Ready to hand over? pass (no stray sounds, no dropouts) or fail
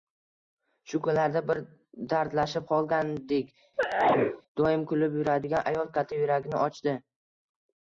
fail